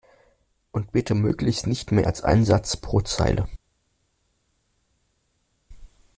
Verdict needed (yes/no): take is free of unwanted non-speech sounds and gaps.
yes